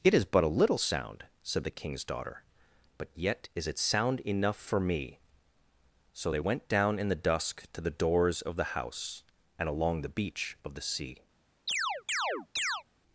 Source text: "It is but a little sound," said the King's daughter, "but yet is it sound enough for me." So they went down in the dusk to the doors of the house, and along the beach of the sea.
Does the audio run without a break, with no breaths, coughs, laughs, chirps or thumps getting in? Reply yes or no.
no